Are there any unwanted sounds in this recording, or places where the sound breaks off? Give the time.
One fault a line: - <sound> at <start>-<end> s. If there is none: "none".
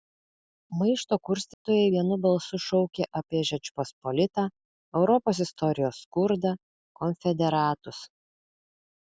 - dropout at 1.5-1.7 s